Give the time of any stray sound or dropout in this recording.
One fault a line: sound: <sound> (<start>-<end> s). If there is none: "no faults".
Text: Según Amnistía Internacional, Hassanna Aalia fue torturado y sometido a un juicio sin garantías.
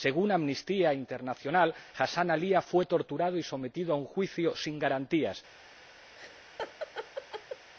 sound: laugh (6.1-7.7 s)